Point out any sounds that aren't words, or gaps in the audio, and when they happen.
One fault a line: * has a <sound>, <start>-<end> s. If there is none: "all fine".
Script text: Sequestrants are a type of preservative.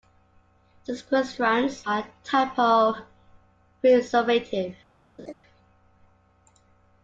* has a laugh, 5.2-5.3 s